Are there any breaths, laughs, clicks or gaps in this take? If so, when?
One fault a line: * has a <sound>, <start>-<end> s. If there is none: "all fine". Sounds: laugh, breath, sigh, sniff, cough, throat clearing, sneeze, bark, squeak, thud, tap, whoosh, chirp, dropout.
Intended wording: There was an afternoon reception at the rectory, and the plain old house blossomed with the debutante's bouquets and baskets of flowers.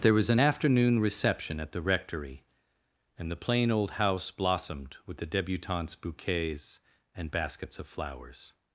all fine